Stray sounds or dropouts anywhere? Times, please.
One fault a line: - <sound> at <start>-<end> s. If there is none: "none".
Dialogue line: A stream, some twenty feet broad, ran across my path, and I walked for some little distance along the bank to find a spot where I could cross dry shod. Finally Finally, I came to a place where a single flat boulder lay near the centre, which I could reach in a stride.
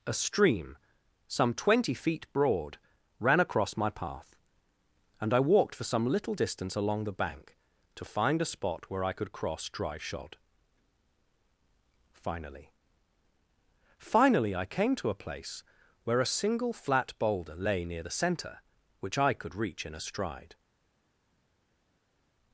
none